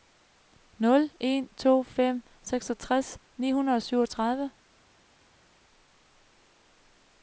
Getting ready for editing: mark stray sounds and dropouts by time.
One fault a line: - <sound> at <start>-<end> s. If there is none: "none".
none